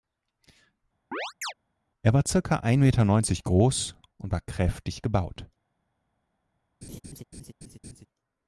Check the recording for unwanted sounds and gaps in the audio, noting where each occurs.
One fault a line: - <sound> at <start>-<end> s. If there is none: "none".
- chirp at 1.1-1.5 s
- laugh at 6.8-8.1 s